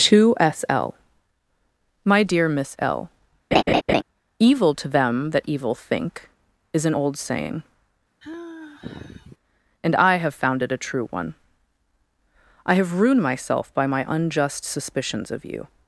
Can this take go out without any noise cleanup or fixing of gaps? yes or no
no